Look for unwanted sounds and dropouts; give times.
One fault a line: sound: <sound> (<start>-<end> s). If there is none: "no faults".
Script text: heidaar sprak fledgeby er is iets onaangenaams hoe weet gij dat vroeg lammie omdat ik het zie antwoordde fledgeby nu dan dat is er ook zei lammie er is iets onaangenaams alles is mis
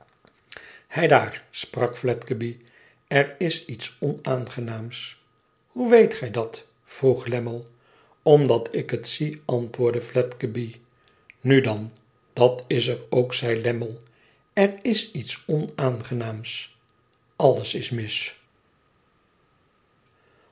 no faults